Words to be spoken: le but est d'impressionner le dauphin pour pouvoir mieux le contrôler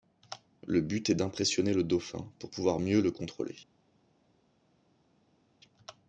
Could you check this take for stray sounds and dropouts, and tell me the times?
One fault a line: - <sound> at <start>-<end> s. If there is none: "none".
none